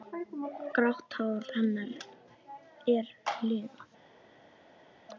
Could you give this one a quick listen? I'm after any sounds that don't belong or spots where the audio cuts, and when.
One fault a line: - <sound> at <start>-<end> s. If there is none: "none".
none